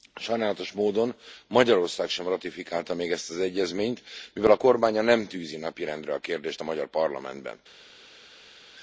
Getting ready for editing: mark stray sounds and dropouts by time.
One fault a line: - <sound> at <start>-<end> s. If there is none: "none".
none